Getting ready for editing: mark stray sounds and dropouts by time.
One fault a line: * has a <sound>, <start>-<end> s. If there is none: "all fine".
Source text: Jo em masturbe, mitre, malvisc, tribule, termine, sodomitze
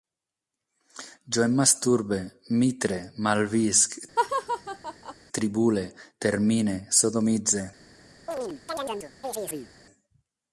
* has a laugh, 4.2-5.1 s
* has a chirp, 8.3-9.7 s